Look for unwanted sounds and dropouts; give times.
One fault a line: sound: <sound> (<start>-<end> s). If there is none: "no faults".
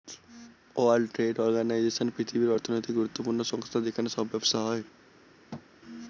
sound: thud (5.5-5.7 s)